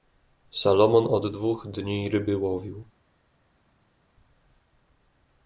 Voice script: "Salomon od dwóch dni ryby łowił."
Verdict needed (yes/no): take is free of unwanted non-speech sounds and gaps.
yes